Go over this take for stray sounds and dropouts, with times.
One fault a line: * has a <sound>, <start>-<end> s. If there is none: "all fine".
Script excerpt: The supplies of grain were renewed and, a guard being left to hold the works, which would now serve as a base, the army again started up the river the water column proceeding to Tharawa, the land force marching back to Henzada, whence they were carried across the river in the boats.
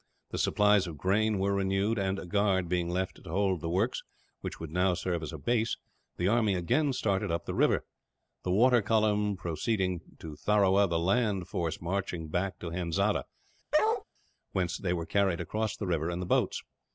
* has a bark, 13.7-14.0 s